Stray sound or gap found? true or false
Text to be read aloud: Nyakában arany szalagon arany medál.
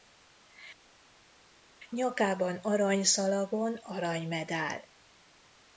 false